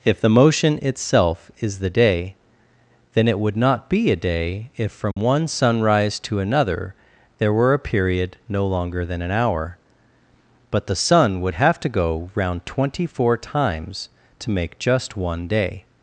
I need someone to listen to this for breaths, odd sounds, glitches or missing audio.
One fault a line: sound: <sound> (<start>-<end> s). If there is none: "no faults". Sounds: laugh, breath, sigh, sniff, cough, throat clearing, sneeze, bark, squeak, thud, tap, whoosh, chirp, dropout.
sound: dropout (5.1-5.2 s)